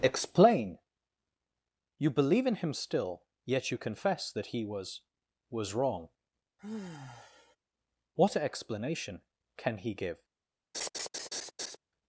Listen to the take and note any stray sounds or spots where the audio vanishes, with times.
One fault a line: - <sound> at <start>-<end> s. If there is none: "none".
- sigh at 6.6-7.6 s
- laugh at 10.7-11.8 s